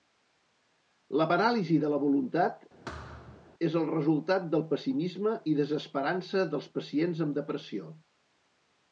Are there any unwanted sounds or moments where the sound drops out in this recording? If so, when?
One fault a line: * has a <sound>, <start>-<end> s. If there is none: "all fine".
* has a thud, 2.9-3.5 s